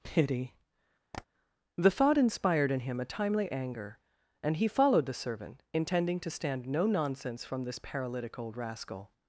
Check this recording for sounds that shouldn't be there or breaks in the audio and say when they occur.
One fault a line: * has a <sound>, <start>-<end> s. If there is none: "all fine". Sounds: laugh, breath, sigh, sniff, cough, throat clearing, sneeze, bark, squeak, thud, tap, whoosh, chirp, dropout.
* has a tap, 1.1-1.3 s